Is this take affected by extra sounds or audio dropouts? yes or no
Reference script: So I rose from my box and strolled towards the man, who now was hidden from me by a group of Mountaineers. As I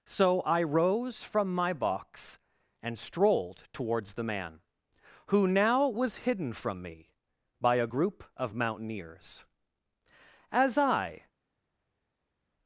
no